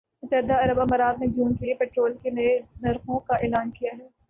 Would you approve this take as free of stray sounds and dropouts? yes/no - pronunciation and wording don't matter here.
yes